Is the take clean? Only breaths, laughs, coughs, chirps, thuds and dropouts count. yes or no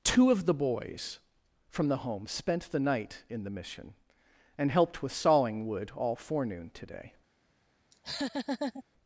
no